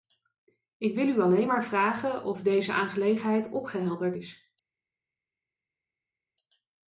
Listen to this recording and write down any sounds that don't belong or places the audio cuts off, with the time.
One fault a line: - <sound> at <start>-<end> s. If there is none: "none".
none